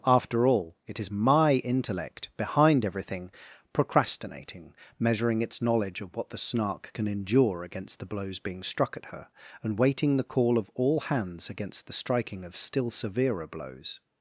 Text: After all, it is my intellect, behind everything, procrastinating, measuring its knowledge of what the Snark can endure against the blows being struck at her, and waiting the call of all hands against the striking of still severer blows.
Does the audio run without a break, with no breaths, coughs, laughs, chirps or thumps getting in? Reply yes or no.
yes